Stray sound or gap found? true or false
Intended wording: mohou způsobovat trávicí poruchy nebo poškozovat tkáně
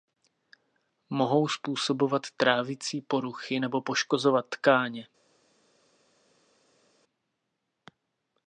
false